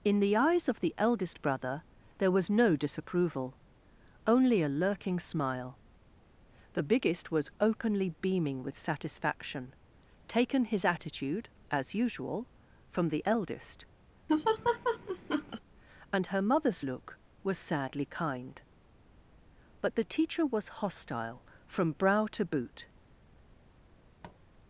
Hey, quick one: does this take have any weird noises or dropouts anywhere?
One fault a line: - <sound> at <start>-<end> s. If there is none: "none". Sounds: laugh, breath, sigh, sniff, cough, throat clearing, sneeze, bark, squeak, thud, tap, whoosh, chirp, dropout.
- laugh at 14.3-15.6 s
- tap at 24.2-24.4 s